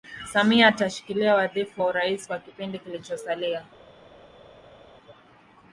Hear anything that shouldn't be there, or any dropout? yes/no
no